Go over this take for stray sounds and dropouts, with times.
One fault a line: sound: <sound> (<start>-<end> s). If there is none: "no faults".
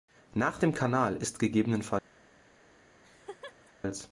sound: laugh (3.0-3.7 s)